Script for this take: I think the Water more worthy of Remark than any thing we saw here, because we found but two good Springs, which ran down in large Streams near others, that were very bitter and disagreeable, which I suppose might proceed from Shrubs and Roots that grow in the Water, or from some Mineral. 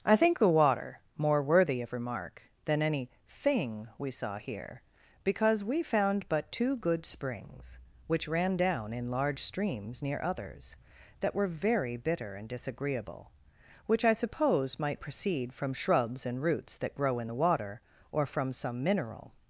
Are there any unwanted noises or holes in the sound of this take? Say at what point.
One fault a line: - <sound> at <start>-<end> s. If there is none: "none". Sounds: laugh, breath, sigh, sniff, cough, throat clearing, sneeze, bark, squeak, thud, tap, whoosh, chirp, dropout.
none